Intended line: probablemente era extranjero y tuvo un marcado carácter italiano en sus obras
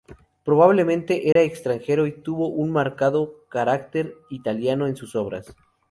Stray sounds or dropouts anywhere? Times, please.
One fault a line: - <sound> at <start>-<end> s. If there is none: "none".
- dropout at 1.3-1.4 s